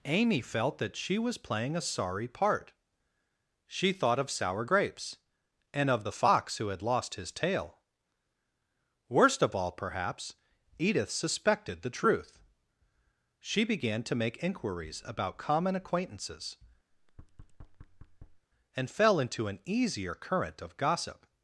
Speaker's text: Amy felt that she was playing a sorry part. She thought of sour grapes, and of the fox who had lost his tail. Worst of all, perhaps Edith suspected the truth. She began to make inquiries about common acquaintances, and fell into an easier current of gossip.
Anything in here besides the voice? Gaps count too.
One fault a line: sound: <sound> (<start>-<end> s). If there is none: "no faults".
sound: thud (16.9-18.5 s)